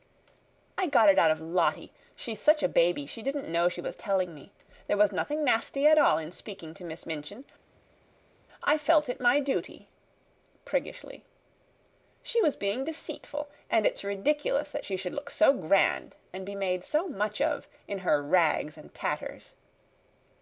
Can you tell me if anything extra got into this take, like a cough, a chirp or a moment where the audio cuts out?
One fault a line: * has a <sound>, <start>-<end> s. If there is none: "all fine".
all fine